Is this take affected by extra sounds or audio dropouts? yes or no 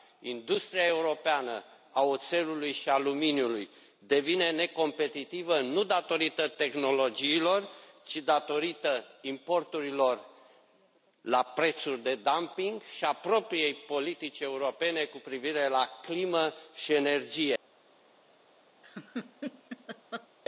yes